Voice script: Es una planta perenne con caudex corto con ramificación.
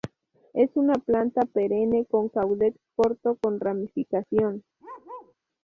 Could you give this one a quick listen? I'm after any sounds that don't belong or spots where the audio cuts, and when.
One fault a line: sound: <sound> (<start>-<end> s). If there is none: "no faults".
sound: bark (4.8-5.3 s)